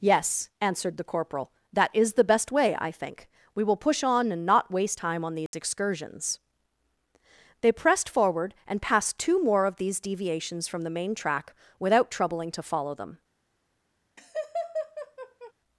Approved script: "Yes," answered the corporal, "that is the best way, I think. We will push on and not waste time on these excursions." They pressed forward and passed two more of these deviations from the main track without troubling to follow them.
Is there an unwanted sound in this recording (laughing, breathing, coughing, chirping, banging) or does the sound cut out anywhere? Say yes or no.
yes